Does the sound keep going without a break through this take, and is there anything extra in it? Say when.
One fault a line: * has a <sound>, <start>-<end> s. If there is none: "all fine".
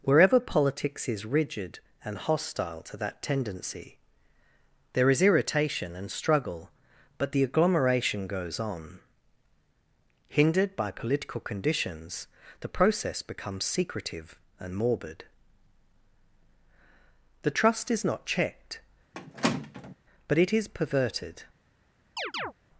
* has a squeak, 19.1-20.0 s
* has a chirp, 22.2-22.5 s